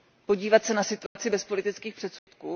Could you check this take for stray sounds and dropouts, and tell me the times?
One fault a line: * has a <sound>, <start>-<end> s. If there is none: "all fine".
* has a dropout, 1.1-1.2 s
* has a dropout, 2.2-2.3 s